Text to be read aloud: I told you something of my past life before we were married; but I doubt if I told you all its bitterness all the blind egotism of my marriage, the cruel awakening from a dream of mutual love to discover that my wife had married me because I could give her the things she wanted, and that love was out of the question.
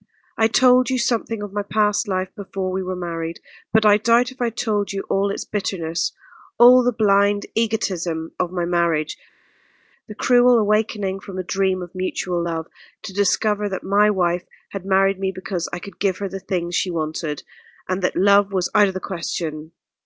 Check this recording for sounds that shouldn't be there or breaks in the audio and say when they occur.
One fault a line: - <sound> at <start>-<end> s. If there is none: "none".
none